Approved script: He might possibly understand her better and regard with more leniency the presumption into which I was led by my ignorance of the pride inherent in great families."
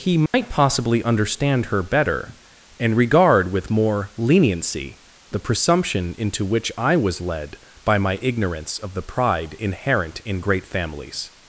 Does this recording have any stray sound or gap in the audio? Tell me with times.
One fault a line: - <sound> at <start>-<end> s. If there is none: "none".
- dropout at 0.3-0.3 s